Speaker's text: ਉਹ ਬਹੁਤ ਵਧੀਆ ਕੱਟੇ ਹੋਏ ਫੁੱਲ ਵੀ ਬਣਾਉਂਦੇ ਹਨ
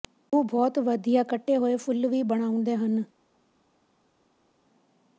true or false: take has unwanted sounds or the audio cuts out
false